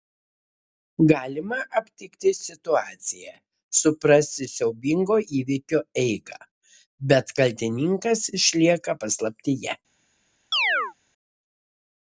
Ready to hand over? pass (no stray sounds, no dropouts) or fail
fail